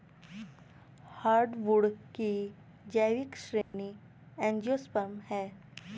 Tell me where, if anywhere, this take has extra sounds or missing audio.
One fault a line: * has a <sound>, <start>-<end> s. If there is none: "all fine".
* has a dropout, 3.6-3.7 s